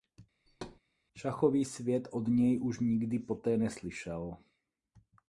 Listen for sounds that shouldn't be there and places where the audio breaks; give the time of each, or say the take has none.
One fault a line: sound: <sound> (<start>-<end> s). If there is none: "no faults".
sound: thud (0.5-0.8 s)